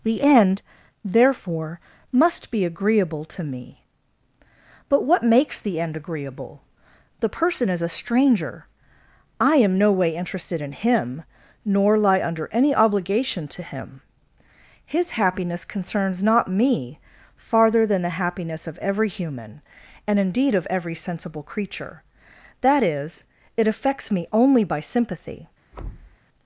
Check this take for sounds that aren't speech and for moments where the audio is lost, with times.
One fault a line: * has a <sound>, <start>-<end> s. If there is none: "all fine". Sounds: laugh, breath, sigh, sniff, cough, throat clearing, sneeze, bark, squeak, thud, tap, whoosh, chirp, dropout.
* has a thud, 25.7-26.2 s